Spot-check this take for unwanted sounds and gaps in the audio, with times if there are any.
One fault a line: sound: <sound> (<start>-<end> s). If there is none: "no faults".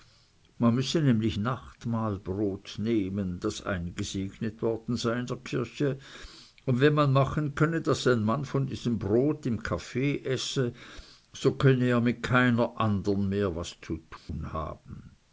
sound: dropout (14.2-14.3 s)